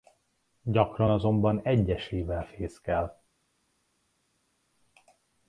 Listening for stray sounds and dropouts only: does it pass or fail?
pass